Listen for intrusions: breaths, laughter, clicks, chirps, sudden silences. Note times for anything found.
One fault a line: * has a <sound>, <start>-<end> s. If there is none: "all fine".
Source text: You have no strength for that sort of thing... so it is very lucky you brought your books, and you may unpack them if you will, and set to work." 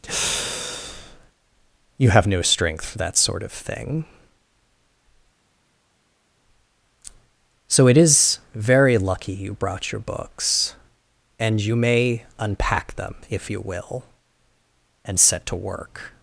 all fine